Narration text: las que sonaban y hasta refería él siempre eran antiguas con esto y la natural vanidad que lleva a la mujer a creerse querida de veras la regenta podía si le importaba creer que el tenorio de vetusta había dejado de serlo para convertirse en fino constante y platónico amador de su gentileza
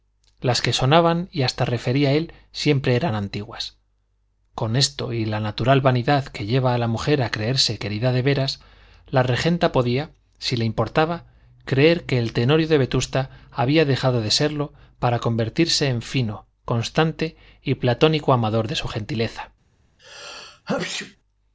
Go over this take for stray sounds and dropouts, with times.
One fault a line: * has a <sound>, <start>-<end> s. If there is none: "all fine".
* has a sneeze, 20.0-21.2 s